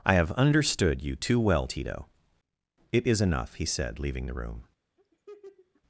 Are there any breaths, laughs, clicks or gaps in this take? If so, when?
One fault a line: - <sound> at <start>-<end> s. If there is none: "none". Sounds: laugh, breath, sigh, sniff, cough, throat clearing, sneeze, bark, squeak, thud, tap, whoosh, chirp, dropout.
- laugh at 5.0-5.8 s